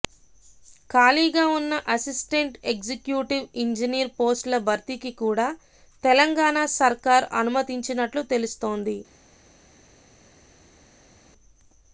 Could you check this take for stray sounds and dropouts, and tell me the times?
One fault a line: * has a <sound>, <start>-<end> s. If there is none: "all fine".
all fine